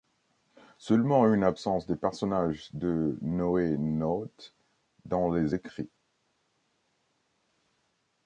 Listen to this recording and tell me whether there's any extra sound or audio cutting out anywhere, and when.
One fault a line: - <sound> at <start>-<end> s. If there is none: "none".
none